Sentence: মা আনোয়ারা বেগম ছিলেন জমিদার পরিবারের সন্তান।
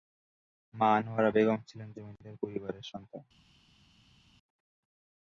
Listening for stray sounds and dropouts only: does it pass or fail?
pass